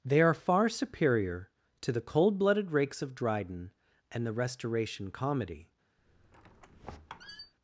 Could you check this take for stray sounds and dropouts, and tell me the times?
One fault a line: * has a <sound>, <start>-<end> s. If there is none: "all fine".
* has a squeak, 6.0-7.5 s